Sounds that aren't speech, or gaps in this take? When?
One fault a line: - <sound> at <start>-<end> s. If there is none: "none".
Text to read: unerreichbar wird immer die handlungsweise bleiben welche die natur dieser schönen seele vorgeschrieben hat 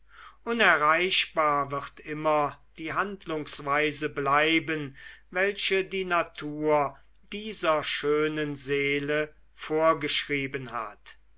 none